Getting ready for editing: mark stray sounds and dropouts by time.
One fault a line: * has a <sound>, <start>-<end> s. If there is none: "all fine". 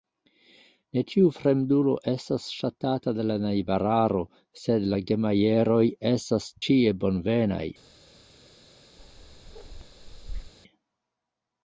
* has a bark, 9.0-10.5 s